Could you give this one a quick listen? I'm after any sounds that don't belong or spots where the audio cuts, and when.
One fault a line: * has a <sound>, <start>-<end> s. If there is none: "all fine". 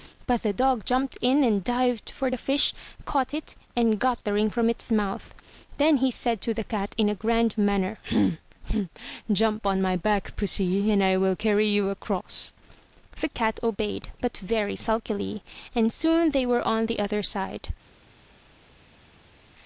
all fine